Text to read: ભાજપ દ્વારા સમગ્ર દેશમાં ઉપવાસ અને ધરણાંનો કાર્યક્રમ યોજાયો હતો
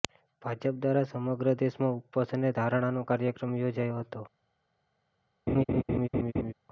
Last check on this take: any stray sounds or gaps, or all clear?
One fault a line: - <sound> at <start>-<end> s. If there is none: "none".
- laugh at 5.5-6.5 s